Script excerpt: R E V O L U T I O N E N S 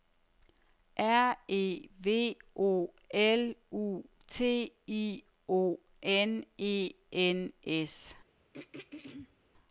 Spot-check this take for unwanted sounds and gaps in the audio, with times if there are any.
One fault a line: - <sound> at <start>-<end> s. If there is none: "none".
- throat clearing at 8.5-9.4 s